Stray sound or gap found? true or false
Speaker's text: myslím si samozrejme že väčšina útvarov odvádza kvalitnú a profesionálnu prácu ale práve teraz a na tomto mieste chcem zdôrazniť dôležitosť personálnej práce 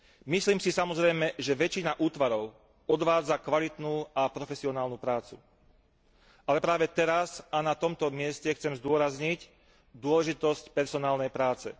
false